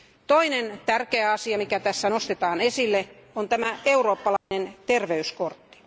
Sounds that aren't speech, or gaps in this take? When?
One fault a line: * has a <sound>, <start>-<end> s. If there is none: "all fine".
* has a dropout, 4.4-4.5 s